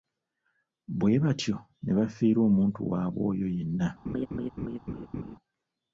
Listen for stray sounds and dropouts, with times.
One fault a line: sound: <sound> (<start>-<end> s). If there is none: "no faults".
sound: laugh (4.1-5.4 s)